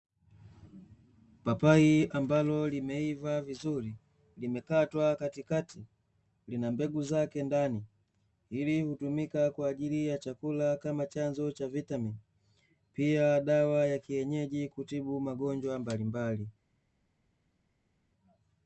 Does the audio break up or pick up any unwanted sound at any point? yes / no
no